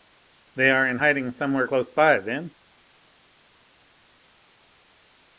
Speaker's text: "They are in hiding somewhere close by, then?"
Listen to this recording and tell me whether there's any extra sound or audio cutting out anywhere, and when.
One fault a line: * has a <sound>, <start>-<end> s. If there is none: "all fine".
all fine